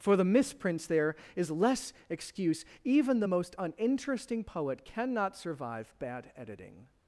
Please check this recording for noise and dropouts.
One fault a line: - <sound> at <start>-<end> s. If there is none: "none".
none